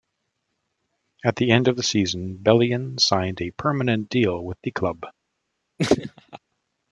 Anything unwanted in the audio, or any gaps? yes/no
yes